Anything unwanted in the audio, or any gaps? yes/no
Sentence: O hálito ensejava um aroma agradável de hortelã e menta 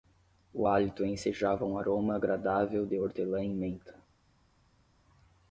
no